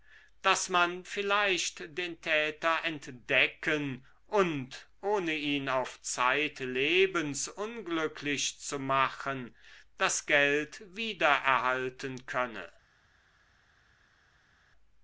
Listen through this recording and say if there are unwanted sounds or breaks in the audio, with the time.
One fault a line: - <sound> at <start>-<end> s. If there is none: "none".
none